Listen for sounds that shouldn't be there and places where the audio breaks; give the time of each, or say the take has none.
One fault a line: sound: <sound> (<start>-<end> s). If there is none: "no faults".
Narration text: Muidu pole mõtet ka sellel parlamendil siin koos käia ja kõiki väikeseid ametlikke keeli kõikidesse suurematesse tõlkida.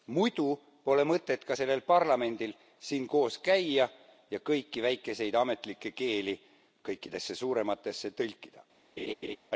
sound: laugh (9.0-9.4 s)